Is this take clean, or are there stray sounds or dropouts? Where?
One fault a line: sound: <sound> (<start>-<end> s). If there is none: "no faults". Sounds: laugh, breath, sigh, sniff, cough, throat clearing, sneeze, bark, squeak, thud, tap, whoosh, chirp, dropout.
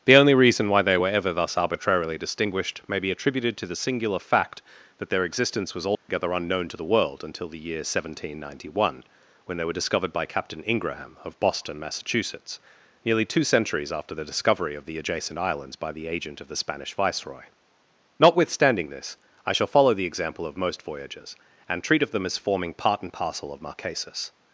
sound: dropout (5.9-6.1 s)